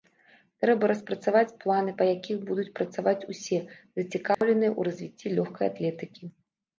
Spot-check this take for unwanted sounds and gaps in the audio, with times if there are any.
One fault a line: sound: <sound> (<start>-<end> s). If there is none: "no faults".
sound: dropout (4.3-4.4 s)